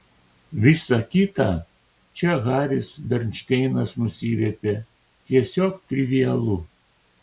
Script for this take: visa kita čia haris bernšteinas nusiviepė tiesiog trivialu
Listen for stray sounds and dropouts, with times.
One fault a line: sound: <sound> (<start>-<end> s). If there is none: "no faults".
no faults